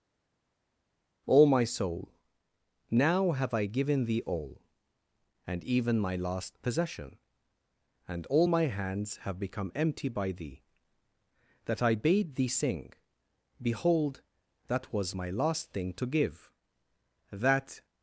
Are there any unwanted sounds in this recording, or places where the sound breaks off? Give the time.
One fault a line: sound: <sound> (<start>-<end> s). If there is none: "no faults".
no faults